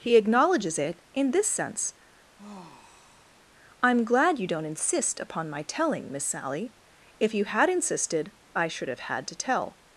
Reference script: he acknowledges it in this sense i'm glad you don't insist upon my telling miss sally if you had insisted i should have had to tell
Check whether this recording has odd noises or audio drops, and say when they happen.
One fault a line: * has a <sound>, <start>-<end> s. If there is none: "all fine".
* has a sigh, 2.4-3.5 s